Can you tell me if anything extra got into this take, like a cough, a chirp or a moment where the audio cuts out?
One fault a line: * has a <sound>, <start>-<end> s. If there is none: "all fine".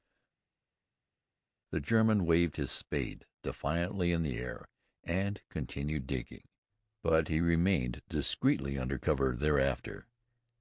all fine